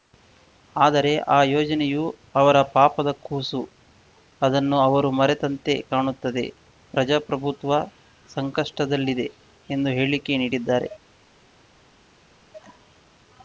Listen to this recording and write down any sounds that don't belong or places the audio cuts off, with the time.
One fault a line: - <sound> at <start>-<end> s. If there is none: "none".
none